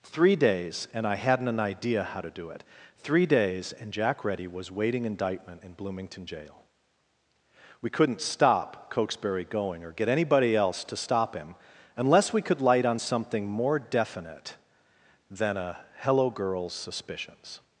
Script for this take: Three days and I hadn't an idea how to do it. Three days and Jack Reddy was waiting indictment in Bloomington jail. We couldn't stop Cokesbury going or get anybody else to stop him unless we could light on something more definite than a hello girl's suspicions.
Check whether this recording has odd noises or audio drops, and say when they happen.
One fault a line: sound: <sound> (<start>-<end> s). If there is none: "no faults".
no faults